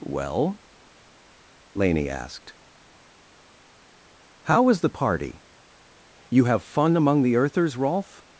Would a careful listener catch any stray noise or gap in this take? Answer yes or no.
no